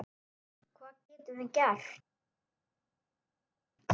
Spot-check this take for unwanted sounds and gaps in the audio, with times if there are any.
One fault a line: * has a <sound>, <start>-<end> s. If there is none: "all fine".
all fine